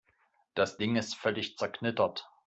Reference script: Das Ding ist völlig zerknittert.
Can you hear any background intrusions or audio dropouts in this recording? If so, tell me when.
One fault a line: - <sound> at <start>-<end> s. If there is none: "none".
none